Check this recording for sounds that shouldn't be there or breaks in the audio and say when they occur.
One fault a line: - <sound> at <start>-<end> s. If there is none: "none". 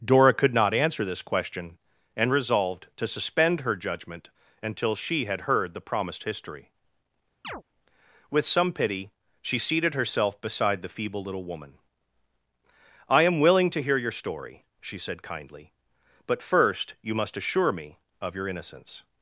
- chirp at 7.4-7.6 s